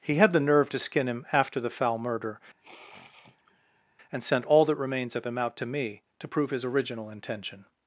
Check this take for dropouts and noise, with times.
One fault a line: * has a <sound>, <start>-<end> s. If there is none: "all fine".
* has a sniff, 2.6-3.8 s